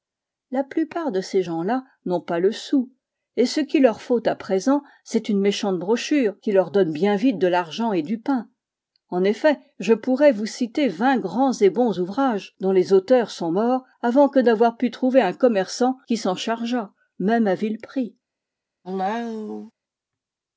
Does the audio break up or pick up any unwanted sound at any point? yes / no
yes